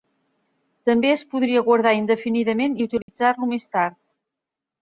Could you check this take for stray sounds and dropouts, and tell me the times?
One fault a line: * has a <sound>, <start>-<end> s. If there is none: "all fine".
* has a dropout, 3.0-3.1 s